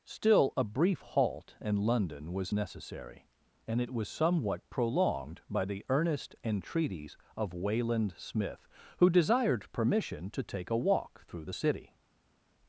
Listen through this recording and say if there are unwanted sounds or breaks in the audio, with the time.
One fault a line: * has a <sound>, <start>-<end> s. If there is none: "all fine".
all fine